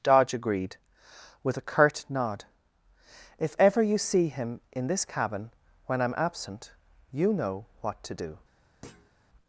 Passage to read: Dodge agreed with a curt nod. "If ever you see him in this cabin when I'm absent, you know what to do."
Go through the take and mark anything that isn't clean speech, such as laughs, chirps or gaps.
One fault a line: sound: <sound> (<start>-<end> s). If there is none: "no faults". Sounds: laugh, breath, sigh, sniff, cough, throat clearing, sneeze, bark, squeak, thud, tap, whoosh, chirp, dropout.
sound: thud (8.8-9.1 s)